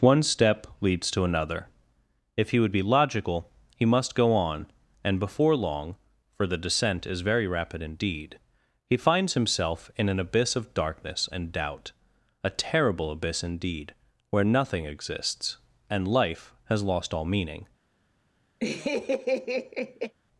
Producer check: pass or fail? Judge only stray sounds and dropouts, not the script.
fail